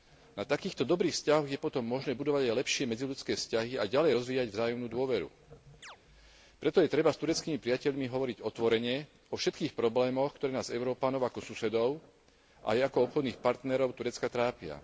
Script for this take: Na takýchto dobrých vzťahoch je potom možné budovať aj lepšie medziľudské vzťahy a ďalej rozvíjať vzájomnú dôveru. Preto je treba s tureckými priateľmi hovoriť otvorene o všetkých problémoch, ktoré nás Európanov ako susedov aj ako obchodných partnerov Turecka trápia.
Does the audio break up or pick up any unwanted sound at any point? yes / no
yes